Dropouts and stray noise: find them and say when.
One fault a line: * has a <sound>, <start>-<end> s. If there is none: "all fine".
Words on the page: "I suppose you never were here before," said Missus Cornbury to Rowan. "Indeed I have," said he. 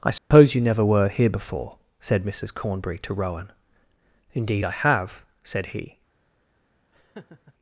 * has a dropout, 0.2-0.3 s
* has a laugh, 6.9-7.5 s